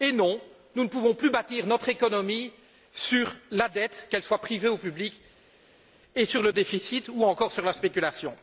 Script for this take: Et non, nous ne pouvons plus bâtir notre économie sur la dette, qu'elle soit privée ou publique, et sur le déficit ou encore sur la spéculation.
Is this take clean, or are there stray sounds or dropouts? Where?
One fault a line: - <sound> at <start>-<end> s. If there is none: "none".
none